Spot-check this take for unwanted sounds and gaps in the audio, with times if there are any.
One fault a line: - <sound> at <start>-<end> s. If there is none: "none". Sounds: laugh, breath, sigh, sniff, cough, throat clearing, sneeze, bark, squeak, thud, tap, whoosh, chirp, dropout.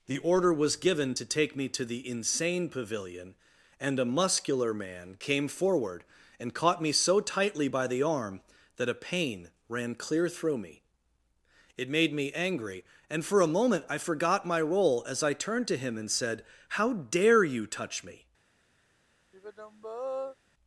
- sigh at 19.3-20.4 s